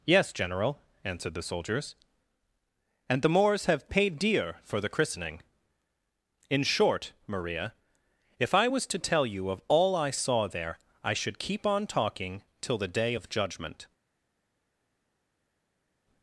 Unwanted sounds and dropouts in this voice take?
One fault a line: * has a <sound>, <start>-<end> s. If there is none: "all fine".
all fine